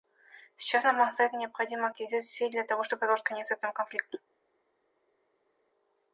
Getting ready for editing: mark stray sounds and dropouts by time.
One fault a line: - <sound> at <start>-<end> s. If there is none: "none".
none